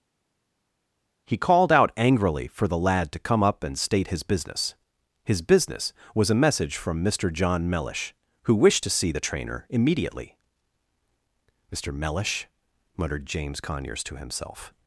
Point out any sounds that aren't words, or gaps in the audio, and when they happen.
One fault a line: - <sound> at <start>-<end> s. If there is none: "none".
none